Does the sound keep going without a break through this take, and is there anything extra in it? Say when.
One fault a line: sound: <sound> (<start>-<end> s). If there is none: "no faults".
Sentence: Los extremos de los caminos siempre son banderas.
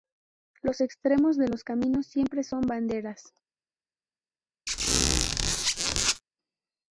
sound: squeak (4.7-6.2 s)